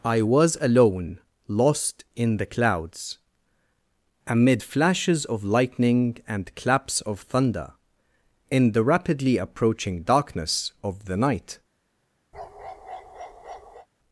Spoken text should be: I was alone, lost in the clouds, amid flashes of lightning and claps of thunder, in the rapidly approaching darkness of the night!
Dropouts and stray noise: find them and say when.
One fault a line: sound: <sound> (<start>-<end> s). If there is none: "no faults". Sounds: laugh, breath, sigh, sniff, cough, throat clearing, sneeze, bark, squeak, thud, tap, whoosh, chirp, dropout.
sound: bark (12.3-13.9 s)